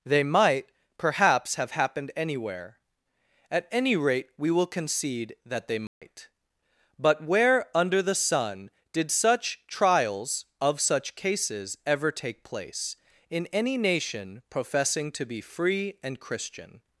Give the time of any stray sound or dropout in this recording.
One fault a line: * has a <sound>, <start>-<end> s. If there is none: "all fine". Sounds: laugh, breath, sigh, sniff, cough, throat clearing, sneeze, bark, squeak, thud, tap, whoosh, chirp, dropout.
* has a dropout, 5.9-6.0 s